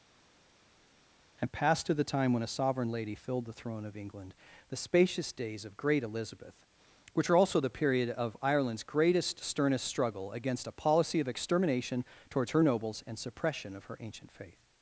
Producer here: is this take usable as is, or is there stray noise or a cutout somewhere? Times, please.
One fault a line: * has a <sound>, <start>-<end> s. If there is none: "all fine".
all fine